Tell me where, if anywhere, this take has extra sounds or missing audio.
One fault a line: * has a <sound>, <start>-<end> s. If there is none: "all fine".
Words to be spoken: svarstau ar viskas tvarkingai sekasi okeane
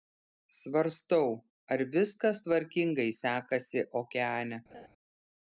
* has a laugh, 4.7-4.9 s